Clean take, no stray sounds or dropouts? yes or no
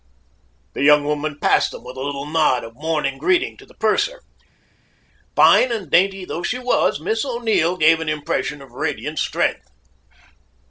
yes